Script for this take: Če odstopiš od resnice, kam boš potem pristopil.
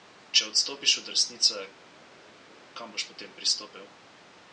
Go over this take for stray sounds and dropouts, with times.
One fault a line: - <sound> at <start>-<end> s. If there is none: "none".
none